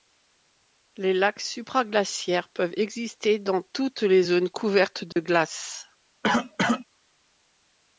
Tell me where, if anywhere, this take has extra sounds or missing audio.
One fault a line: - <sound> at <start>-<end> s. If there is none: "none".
- dropout at 5.1-5.2 s
- cough at 6.2-6.9 s